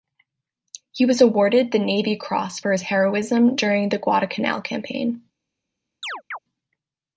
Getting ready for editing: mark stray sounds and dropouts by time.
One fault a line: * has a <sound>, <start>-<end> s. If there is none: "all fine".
* has a chirp, 6.0-6.4 s